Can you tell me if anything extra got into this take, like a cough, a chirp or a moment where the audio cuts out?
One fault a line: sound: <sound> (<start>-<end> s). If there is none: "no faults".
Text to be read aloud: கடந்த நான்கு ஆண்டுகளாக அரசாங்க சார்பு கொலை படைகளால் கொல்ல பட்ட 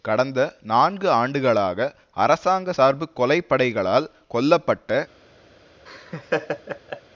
sound: laugh (5.9-7.0 s)